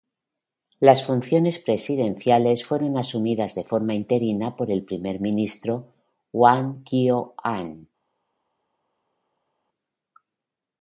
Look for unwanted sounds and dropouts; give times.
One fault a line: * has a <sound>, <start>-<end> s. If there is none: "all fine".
all fine